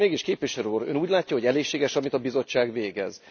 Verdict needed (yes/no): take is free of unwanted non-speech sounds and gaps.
yes